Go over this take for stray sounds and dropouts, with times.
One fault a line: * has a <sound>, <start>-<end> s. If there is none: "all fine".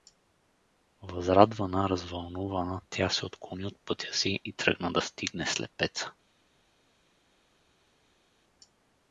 all fine